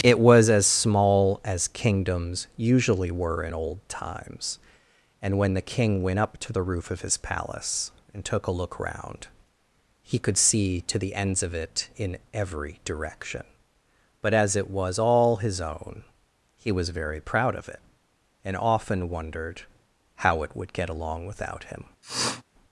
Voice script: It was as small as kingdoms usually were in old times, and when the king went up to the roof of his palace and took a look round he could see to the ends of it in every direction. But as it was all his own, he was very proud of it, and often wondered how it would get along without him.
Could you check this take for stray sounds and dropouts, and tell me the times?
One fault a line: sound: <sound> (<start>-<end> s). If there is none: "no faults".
sound: sniff (22.0-22.4 s)